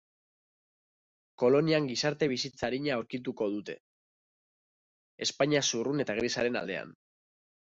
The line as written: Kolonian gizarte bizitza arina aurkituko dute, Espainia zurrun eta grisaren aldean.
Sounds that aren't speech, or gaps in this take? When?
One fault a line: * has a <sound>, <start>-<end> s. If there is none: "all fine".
all fine